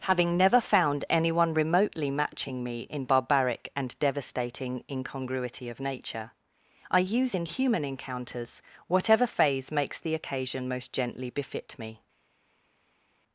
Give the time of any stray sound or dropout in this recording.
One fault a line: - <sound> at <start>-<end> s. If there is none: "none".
none